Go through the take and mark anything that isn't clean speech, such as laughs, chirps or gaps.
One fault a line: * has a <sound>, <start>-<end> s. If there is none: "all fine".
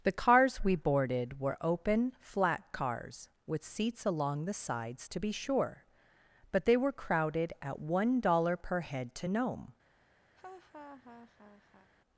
* has a laugh, 10.4-11.9 s